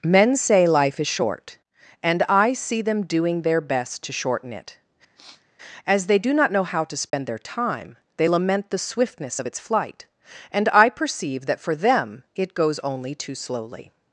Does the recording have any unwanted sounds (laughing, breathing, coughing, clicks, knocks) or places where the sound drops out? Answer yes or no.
yes